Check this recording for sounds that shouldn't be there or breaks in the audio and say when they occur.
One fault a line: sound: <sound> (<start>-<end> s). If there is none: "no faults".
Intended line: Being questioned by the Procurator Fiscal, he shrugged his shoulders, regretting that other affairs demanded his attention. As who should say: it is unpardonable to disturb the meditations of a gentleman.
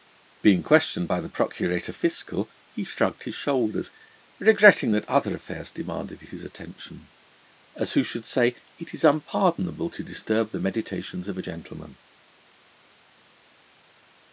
no faults